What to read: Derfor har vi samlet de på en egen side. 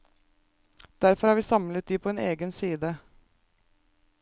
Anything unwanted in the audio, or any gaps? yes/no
no